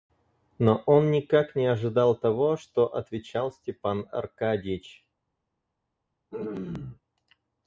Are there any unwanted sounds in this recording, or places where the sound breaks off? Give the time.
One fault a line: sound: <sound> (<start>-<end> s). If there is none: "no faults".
sound: throat clearing (6.3-7.0 s)